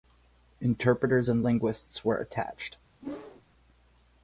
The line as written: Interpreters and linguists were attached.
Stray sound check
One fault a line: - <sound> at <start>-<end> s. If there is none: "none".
- whoosh at 3.0-3.4 s